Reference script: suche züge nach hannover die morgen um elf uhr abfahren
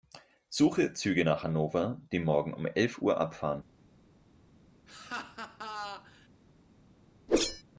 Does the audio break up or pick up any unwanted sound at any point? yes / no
yes